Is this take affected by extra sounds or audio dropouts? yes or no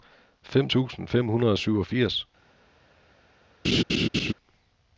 yes